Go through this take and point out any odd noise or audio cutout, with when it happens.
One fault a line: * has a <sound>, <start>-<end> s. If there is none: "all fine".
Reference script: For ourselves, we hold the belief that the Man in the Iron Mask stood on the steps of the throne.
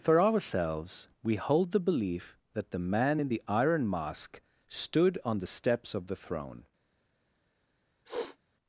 * has a sniff, 8.0-8.4 s